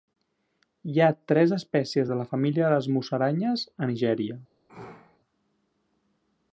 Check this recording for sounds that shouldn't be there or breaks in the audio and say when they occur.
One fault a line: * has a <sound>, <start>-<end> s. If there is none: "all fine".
* has a sneeze, 4.7-5.2 s